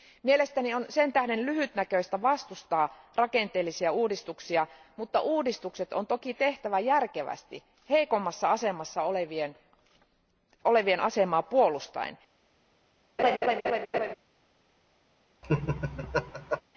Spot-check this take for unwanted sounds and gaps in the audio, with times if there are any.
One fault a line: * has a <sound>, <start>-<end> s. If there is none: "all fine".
* has a laugh, 13.2-14.1 s
* has a laugh, 15.4-16.6 s